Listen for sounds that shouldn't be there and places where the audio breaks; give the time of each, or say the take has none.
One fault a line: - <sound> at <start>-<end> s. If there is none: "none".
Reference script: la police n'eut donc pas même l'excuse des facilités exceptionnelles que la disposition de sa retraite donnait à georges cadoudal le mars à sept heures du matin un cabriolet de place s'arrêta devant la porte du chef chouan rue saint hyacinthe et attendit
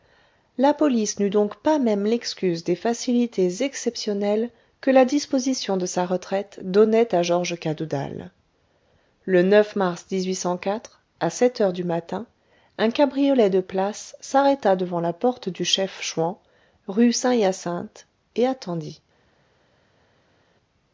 none